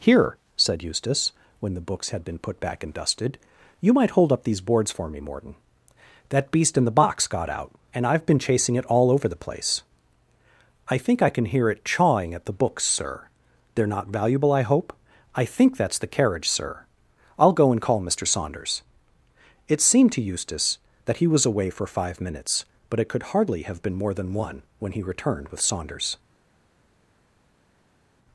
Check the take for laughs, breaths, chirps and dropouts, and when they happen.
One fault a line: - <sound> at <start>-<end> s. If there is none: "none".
none